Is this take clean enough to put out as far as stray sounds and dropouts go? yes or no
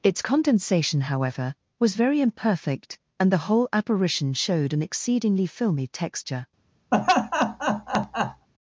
no